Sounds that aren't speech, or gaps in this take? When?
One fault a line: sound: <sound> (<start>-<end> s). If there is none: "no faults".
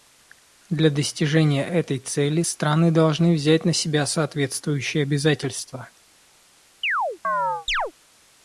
sound: chirp (6.8-7.9 s)